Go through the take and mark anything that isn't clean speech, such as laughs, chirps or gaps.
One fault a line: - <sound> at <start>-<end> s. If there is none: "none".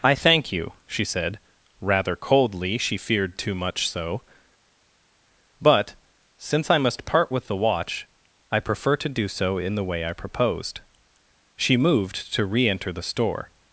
none